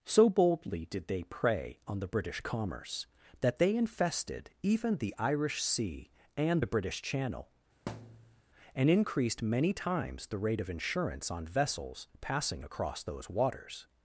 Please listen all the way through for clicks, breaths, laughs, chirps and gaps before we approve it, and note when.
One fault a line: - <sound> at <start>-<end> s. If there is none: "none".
- thud at 7.9-8.4 s